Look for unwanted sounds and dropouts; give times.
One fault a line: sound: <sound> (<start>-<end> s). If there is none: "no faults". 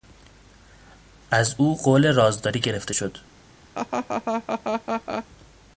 sound: laugh (3.7-5.3 s)